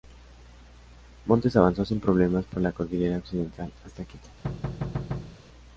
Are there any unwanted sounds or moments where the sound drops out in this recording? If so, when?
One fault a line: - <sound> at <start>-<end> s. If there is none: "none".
- thud at 4.4-5.4 s